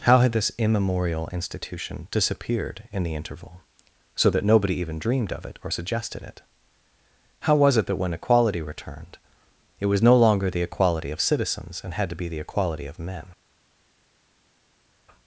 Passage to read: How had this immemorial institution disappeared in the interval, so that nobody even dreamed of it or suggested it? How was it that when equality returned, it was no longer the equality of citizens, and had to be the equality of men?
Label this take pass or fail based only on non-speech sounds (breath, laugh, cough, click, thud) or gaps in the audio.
pass